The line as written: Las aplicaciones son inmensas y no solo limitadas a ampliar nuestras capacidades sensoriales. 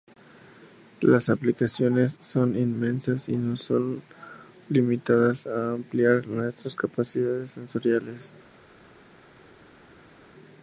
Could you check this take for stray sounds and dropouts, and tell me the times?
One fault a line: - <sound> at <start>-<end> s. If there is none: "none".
none